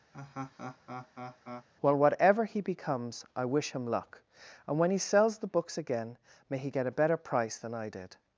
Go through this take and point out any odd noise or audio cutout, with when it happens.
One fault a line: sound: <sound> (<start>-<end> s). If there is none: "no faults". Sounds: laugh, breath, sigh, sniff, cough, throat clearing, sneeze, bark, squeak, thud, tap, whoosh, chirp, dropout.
sound: laugh (0.1-1.7 s)